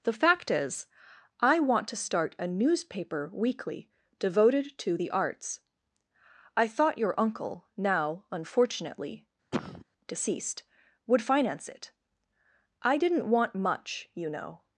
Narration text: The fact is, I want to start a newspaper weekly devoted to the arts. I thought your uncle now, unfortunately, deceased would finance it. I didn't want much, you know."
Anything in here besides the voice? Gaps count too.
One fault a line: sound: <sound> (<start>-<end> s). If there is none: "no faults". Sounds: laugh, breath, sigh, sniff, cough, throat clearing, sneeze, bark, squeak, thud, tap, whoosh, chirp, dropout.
sound: cough (9.5-9.8 s)